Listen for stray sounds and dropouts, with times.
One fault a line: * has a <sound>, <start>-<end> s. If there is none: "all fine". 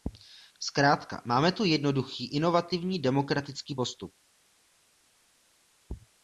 all fine